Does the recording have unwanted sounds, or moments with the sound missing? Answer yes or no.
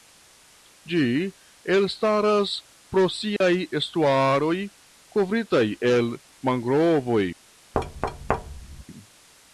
yes